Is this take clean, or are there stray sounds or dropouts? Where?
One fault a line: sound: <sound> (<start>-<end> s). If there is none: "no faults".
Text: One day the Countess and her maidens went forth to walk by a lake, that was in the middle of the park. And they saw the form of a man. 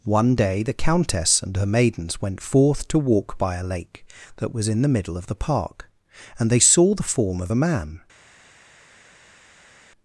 no faults